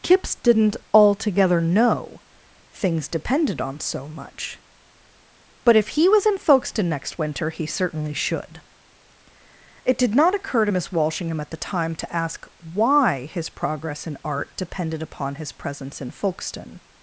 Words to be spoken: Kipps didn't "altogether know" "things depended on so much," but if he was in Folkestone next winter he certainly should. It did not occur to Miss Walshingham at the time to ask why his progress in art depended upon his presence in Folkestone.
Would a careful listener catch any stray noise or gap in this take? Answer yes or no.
no